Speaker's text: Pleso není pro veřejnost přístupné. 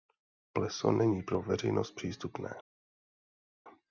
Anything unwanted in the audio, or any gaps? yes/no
no